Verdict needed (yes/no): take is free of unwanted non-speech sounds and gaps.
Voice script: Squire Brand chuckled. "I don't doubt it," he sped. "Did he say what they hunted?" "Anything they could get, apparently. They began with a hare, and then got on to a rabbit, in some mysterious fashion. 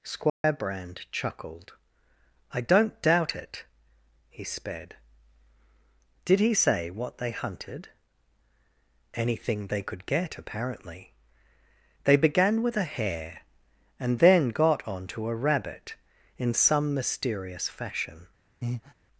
no